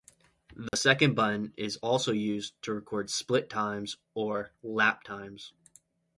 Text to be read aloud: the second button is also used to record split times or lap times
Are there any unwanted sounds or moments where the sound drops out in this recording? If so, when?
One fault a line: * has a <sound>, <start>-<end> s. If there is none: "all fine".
* has a dropout, 0.7-0.7 s